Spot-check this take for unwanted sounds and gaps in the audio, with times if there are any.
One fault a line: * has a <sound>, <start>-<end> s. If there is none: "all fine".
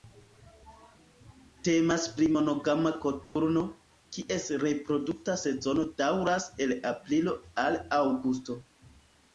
* has a dropout, 3.2-3.4 s